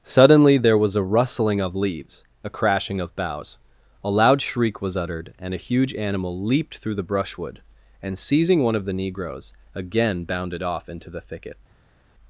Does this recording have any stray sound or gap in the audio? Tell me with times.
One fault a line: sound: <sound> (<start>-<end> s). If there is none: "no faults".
no faults